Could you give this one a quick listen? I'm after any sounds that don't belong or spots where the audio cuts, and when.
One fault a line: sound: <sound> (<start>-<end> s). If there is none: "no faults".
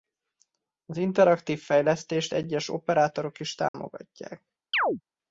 sound: dropout (3.7-3.7 s)
sound: chirp (4.7-5.0 s)